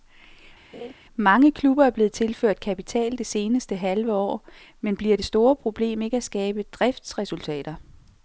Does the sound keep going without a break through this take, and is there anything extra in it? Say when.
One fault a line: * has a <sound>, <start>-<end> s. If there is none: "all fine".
* has a laugh, 0.7-0.9 s